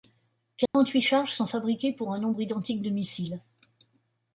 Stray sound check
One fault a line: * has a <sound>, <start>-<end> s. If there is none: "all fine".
* has a dropout, 0.7-0.7 s